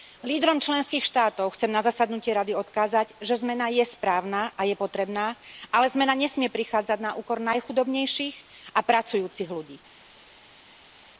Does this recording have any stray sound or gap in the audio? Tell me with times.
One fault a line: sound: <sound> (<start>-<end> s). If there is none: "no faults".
no faults